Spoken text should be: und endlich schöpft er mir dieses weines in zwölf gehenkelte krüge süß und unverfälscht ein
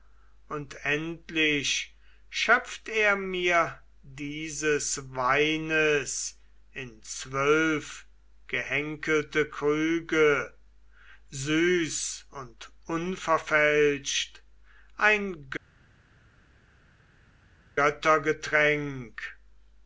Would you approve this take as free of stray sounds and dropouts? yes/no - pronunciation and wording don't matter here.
yes